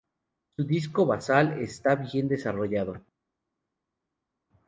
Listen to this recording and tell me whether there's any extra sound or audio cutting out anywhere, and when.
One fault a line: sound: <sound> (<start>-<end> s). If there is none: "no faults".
no faults